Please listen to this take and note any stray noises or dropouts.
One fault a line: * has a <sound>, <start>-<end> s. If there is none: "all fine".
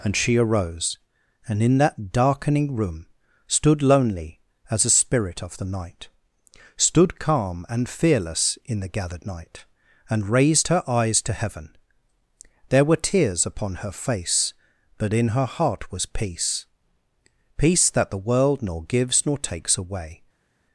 all fine